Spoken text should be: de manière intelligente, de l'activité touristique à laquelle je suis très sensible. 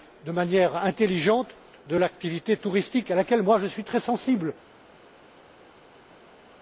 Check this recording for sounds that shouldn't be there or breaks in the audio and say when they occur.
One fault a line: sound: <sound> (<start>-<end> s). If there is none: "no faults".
no faults